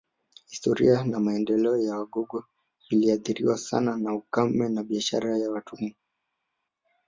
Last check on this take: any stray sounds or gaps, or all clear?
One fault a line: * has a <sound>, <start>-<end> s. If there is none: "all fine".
all fine